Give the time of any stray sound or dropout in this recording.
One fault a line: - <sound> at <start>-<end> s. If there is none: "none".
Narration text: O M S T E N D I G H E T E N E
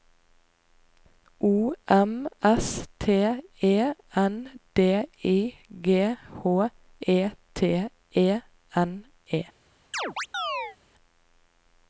- chirp at 9.9-10.8 s